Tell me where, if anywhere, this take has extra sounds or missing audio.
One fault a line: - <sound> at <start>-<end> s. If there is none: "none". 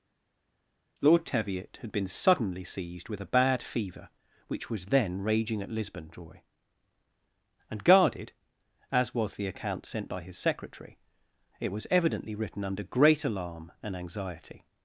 none